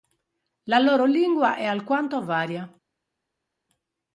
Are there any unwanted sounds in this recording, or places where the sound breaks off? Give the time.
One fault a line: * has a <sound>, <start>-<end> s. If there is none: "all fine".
all fine